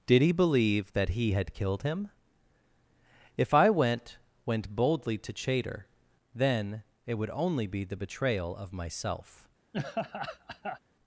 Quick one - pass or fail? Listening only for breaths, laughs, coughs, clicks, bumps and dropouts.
fail